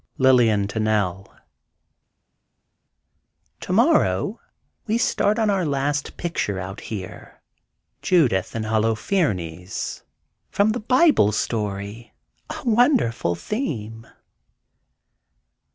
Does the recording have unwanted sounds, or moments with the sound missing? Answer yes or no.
no